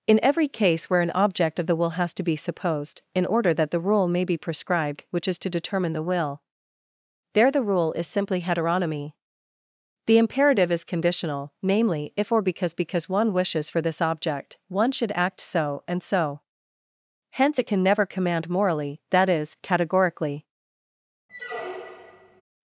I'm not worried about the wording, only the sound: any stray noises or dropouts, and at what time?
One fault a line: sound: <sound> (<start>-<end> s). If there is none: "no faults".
sound: squeak (21.3-22.4 s)